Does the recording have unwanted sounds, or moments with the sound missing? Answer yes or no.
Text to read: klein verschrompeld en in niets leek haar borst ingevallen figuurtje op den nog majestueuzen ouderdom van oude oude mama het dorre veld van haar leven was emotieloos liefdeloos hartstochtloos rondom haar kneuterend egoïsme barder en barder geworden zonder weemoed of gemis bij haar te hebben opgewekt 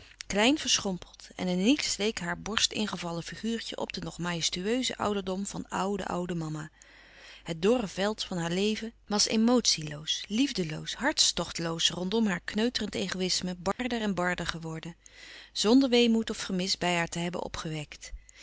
yes